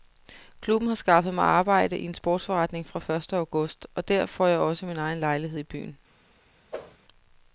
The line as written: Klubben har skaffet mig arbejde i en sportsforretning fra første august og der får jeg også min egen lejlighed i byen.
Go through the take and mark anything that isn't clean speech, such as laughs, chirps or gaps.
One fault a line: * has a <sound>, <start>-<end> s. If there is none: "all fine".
* has a whoosh, 6.7-7.0 s